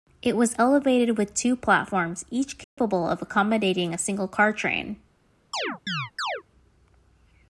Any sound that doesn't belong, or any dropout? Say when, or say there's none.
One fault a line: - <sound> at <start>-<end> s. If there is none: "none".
- dropout at 2.6-2.8 s
- chirp at 5.5-6.4 s